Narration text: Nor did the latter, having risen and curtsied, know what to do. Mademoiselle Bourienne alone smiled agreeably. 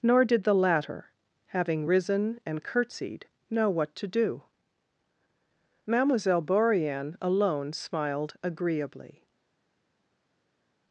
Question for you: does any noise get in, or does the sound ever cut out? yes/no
no